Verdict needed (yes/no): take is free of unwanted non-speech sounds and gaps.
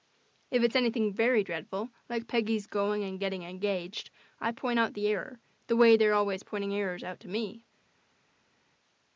yes